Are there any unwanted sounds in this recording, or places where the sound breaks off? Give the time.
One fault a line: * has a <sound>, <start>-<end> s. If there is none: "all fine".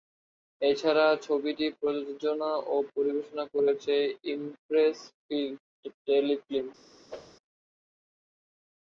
* has a whoosh, 7.1-7.4 s